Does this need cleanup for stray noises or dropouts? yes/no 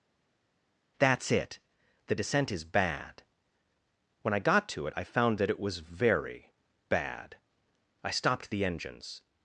no